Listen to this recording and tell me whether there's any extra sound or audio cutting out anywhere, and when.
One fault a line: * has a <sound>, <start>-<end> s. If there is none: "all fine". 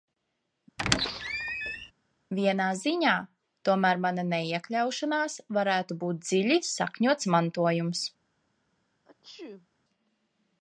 * has a squeak, 0.8-1.9 s
* has a sneeze, 9.0-9.7 s